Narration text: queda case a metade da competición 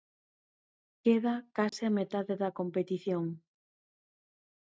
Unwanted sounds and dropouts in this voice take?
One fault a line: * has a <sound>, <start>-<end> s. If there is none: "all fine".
* has a dropout, 1.7-1.7 s